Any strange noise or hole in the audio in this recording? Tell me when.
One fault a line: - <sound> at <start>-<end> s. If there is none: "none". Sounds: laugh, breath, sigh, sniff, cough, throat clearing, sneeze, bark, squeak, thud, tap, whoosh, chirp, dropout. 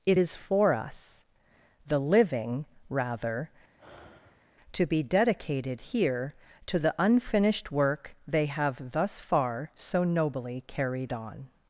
- sigh at 3.8-4.6 s